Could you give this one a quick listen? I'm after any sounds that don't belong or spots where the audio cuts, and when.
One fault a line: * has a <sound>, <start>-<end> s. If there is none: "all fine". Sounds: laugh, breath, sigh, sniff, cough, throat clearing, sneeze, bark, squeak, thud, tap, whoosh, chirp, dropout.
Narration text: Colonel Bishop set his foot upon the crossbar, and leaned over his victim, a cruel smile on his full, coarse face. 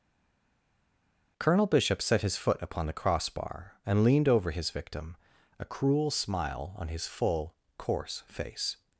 all fine